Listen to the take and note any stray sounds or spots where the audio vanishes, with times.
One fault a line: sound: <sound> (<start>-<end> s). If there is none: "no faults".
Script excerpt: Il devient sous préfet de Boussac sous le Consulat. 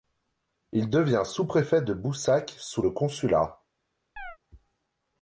sound: chirp (4.2-4.4 s)